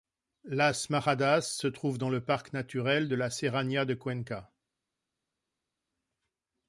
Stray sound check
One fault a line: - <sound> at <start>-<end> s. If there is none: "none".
none